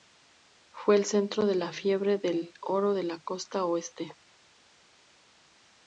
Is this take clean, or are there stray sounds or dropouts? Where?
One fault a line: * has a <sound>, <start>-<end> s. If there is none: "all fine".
all fine